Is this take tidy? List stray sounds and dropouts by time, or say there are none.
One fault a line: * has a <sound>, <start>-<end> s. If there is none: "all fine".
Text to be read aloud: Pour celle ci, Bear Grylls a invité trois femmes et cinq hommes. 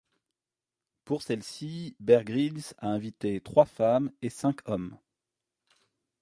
all fine